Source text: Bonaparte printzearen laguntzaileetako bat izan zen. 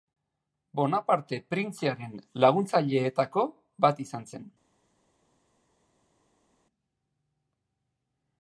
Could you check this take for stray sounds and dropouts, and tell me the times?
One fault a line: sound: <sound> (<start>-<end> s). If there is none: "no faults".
no faults